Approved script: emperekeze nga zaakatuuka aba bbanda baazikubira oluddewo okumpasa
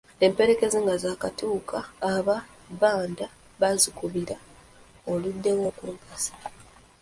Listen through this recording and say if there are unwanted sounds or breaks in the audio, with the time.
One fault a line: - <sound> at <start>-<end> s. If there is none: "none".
none